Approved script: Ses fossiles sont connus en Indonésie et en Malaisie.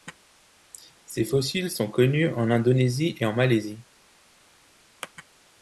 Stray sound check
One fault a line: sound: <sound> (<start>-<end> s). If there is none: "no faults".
no faults